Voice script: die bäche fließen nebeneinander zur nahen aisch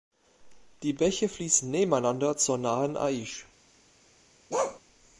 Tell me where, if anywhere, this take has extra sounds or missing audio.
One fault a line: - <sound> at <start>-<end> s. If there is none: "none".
- bark at 4.5-4.8 s